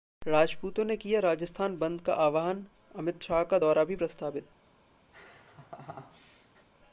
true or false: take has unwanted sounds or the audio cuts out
true